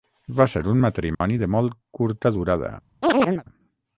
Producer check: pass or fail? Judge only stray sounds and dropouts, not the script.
fail